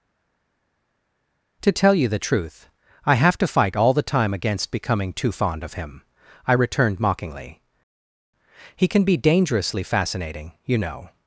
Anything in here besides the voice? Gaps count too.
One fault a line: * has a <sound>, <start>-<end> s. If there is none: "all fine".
all fine